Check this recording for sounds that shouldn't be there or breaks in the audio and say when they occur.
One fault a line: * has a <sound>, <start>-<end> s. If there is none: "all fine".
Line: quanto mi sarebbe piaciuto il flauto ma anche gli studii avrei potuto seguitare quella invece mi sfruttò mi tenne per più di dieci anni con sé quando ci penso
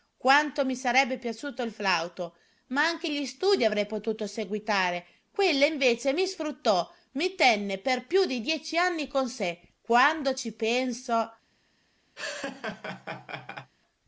* has a laugh, 12.2-13.7 s